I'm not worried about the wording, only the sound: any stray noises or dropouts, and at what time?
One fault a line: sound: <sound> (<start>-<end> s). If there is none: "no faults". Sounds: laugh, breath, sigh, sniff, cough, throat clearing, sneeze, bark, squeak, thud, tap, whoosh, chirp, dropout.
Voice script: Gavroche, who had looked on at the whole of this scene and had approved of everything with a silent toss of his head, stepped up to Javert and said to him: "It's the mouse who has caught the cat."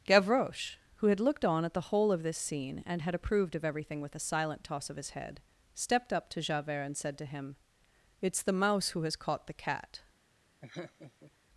sound: laugh (10.6-11.3 s)